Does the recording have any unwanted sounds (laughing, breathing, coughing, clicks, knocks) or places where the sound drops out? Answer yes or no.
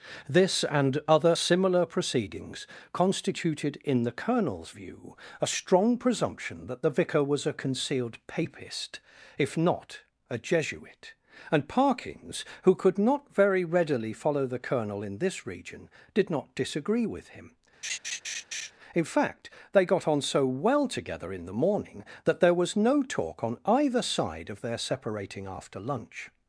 yes